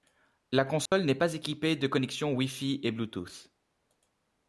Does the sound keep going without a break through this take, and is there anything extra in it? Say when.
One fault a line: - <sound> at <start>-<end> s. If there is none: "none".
- dropout at 0.9-0.9 s